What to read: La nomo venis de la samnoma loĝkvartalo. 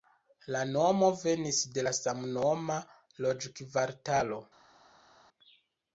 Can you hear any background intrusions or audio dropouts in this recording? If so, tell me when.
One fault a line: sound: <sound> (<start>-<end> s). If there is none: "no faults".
no faults